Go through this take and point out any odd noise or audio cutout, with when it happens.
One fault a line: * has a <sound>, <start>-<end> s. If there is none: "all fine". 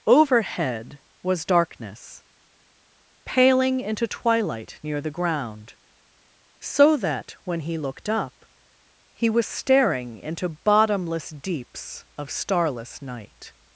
all fine